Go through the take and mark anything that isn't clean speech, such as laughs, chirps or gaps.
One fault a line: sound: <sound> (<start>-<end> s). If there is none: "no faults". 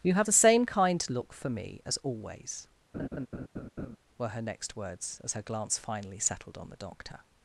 sound: laugh (2.9-4.0 s)